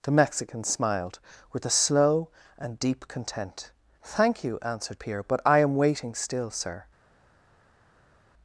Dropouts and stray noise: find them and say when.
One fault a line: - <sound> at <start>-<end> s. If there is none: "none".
none